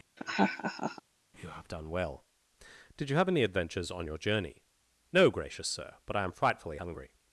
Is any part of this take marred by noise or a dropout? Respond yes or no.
yes